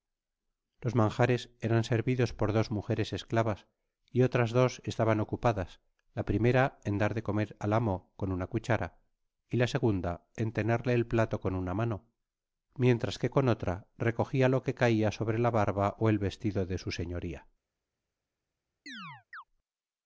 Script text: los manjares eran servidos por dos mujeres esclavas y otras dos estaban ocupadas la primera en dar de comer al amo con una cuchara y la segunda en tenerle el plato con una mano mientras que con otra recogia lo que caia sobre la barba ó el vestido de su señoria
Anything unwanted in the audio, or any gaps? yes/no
yes